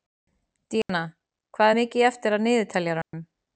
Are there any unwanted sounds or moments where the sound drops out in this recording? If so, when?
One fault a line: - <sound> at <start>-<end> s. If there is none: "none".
- dropout at 0.8-0.9 s
- dropout at 3.0-3.1 s